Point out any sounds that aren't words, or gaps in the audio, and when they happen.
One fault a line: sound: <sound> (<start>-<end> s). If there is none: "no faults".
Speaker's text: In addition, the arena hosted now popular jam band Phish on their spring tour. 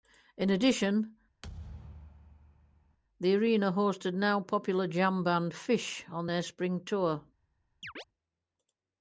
sound: thud (1.4-3.0 s)
sound: chirp (7.8-8.0 s)